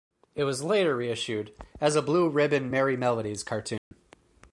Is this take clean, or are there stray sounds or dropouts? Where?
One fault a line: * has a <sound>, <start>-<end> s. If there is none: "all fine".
* has a dropout, 3.8-3.9 s